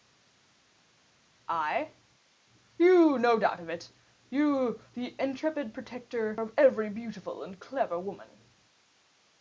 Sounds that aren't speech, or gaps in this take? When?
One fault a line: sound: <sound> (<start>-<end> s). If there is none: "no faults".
no faults